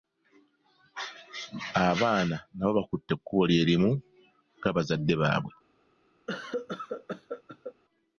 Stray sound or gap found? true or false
true